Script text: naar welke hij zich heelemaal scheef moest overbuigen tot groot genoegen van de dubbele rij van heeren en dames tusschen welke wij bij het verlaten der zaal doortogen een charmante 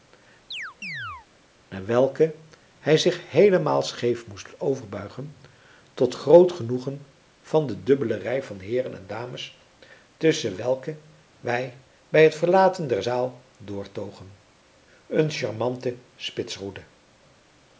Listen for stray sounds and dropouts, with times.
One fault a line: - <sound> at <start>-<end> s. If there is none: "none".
- chirp at 0.5-1.3 s